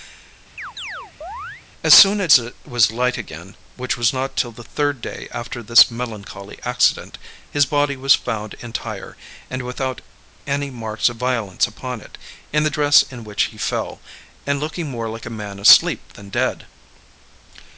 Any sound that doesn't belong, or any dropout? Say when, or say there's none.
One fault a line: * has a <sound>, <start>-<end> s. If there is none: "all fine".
* has a chirp, 0.6-1.6 s